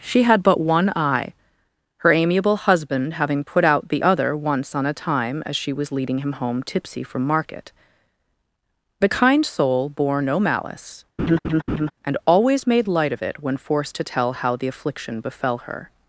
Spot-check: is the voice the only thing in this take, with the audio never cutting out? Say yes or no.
no